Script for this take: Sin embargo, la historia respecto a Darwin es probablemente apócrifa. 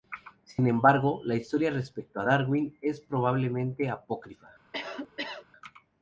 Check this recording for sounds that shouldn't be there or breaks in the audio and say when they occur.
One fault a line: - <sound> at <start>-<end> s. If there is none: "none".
- cough at 4.7-5.4 s